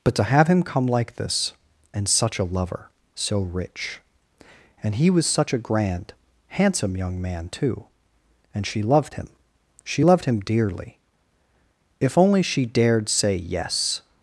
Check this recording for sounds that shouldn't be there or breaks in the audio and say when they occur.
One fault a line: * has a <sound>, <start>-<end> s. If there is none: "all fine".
all fine